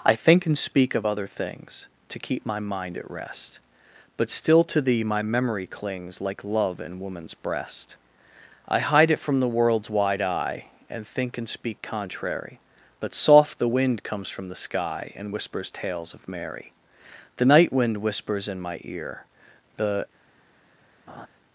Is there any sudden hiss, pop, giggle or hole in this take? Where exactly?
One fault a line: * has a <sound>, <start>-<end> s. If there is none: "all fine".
* has a laugh, 21.1-21.3 s